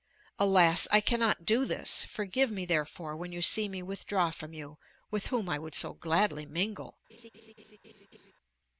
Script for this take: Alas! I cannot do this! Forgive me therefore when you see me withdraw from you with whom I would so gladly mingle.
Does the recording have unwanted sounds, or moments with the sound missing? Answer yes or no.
yes